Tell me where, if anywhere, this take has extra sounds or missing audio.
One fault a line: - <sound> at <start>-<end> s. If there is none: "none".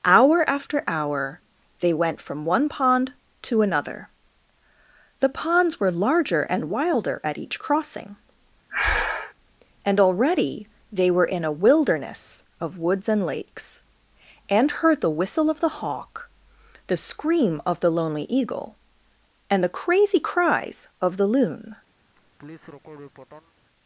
- breath at 8.7-9.3 s
- laugh at 22.1-23.5 s